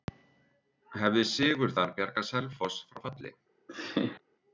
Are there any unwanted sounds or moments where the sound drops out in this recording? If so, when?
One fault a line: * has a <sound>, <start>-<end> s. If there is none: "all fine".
* has a laugh, 3.7-4.2 s